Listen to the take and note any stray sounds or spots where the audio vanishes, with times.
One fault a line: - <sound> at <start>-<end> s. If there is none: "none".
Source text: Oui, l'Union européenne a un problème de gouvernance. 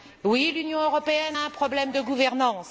none